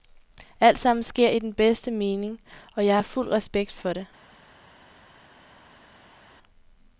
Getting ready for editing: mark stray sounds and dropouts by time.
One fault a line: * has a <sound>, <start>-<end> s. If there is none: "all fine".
all fine